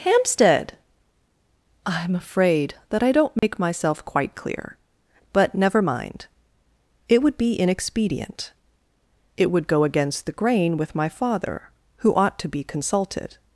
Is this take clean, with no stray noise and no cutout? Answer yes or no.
no